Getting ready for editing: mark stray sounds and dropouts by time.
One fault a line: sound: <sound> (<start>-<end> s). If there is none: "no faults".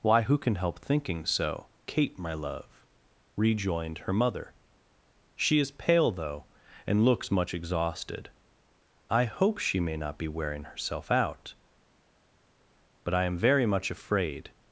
no faults